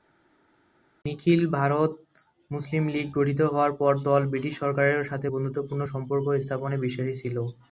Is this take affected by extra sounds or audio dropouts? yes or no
no